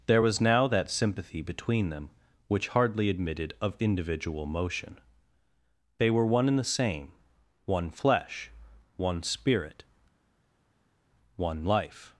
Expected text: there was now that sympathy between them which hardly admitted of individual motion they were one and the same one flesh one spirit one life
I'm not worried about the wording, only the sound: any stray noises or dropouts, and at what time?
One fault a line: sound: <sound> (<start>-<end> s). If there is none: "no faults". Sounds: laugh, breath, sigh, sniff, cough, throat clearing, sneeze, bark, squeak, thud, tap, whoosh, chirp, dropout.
no faults